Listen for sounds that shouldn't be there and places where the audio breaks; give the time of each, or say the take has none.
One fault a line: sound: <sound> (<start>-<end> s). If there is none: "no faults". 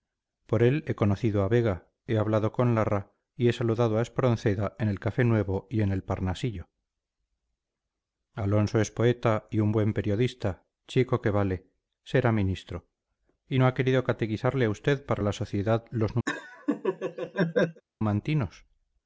sound: laugh (16.3-17.8 s)